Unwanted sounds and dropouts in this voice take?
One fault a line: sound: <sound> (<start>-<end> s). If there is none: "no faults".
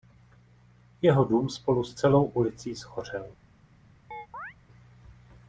sound: chirp (4.1-4.5 s)